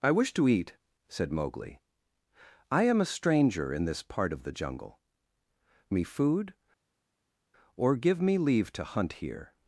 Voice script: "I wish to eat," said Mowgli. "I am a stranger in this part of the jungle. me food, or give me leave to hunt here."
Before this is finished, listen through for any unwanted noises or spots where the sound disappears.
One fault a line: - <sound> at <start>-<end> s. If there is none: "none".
none